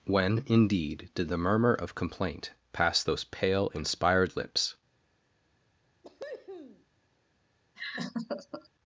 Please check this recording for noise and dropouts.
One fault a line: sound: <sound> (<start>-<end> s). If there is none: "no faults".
sound: cough (6.0-6.9 s)
sound: laugh (7.8-8.7 s)